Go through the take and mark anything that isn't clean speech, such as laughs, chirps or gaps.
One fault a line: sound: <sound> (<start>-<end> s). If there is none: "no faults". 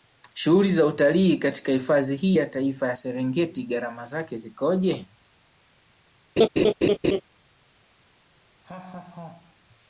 sound: laugh (6.4-7.2 s)
sound: laugh (8.6-9.6 s)